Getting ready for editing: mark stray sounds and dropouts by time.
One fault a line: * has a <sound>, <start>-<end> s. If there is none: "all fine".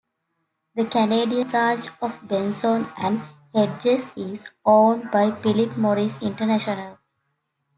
all fine